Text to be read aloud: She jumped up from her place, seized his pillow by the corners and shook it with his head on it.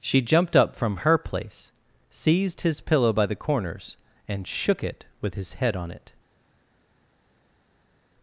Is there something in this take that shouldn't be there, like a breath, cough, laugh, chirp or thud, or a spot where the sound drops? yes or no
no